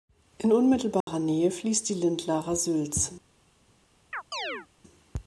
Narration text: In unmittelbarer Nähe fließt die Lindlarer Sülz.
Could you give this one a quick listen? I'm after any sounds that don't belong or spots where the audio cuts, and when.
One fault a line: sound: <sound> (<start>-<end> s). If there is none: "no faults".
sound: dropout (1.0-1.1 s)
sound: chirp (4.1-4.7 s)